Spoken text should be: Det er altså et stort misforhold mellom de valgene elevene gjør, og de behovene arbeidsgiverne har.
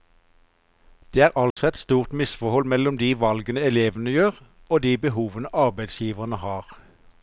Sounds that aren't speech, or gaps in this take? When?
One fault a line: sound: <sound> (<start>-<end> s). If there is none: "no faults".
sound: dropout (1.5-1.6 s)